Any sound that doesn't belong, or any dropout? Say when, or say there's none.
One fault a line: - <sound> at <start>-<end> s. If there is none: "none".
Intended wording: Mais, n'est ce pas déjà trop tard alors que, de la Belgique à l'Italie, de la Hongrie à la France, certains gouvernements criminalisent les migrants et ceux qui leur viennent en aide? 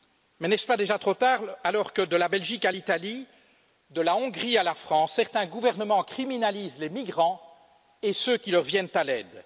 none